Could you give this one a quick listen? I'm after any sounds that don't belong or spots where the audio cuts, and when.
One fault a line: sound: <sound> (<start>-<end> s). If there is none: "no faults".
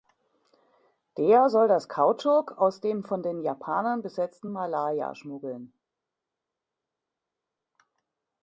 no faults